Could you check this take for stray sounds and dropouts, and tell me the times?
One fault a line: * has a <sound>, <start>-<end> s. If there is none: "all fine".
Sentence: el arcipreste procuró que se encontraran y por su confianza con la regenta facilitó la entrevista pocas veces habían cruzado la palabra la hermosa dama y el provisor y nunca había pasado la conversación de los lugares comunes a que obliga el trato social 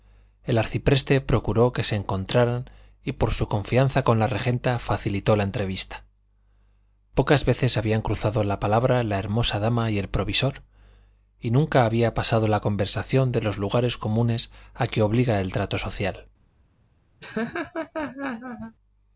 * has a laugh, 17.2-18.8 s